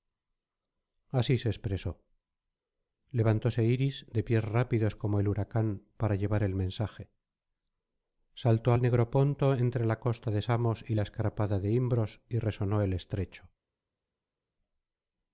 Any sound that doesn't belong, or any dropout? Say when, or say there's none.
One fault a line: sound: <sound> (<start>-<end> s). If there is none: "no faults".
no faults